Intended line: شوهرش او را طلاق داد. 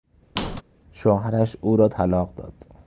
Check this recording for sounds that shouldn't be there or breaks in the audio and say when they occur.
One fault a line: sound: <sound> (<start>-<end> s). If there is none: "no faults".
sound: squeak (0.4-0.6 s)